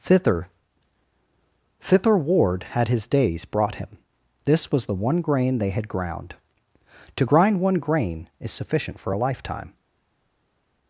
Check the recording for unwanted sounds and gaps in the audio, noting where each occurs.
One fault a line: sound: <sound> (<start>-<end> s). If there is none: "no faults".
no faults